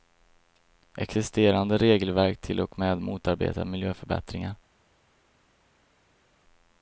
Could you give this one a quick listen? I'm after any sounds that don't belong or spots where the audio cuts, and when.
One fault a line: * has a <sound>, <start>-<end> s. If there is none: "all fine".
all fine